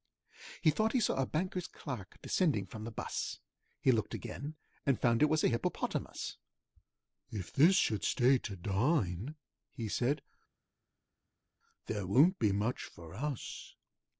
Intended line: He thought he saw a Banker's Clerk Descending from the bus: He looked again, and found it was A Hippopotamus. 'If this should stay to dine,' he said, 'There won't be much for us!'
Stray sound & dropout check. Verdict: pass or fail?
pass